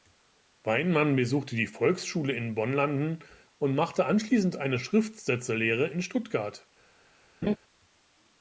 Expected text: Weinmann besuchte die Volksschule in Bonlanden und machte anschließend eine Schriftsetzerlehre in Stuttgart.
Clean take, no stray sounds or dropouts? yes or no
no